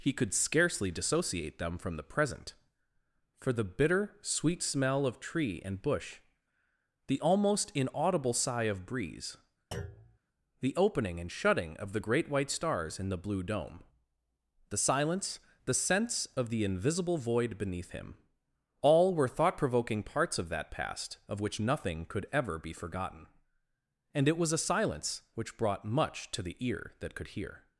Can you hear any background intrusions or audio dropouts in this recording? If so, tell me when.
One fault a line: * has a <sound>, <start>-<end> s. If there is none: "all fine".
* has a thud, 9.7-10.2 s